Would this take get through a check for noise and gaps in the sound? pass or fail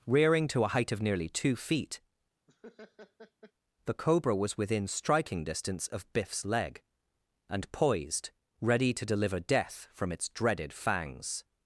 fail